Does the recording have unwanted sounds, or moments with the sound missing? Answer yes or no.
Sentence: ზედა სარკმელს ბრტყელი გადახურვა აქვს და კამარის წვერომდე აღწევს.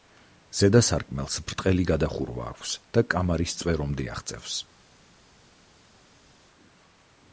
no